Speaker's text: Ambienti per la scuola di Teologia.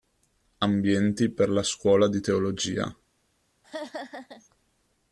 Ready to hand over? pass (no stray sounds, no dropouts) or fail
fail